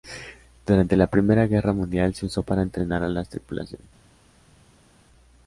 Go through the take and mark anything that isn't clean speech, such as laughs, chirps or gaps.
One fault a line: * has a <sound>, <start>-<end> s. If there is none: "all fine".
all fine